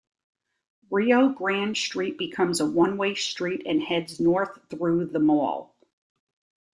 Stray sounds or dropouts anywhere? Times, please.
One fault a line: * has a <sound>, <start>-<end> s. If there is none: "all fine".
all fine